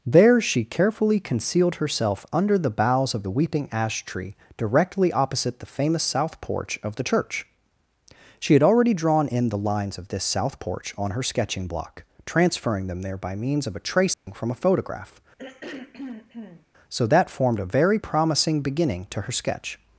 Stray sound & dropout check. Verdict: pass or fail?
fail